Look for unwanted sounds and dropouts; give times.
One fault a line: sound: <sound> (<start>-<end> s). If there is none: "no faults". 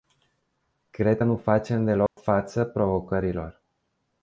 sound: dropout (2.1-2.2 s)